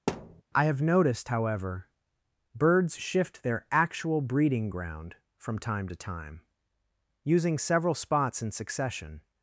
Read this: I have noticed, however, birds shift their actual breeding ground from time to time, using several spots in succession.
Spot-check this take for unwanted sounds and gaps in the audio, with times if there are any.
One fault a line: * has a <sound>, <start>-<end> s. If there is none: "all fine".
* has a thud, 0.1-0.4 s